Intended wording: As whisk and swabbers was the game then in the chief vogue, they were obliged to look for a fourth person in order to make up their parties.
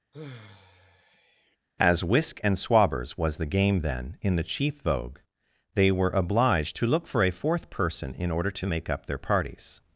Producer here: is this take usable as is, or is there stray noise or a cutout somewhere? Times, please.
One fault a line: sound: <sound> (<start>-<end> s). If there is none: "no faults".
sound: sigh (0.1-1.6 s)